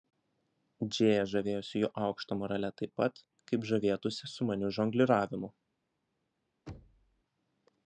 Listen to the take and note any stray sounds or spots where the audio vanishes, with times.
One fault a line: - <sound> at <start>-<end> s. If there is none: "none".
- thud at 6.7-7.2 s